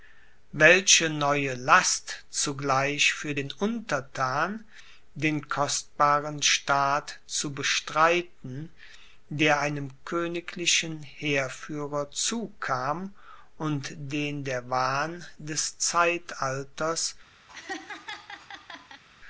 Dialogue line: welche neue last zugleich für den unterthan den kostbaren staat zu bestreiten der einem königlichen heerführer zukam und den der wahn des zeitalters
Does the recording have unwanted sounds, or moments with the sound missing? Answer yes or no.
yes